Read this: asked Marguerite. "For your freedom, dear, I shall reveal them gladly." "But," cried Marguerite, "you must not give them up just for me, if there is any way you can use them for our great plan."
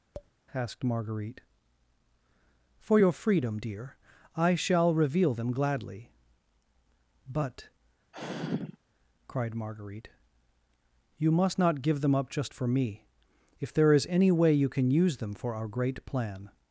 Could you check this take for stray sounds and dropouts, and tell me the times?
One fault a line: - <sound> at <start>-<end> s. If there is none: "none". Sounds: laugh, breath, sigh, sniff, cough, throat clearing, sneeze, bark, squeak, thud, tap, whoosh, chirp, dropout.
- tap at 0.1-0.3 s
- sigh at 8.1-8.8 s